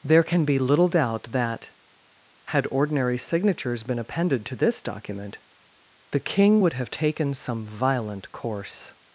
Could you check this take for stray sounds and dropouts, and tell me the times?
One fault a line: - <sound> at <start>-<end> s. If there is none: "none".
none